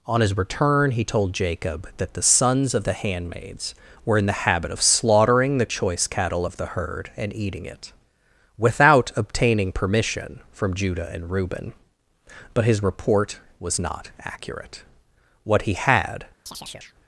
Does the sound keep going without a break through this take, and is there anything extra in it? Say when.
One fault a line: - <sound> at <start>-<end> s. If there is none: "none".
- chirp at 16.5-17.0 s